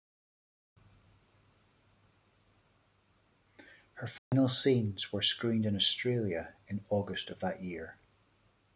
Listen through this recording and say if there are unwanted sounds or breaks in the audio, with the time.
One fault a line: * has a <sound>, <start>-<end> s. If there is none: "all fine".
* has a dropout, 4.2-4.3 s